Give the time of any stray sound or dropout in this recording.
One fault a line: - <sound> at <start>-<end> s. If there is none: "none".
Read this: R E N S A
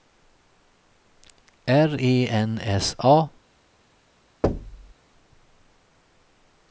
- thud at 4.4-4.9 s